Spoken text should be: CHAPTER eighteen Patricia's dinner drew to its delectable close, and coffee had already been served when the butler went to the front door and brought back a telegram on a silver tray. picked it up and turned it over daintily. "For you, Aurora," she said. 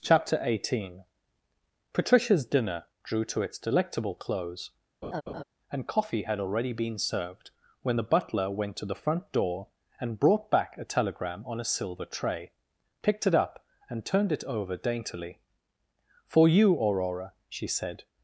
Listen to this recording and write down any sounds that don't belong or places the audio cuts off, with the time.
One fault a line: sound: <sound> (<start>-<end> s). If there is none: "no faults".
sound: laugh (5.0-5.4 s)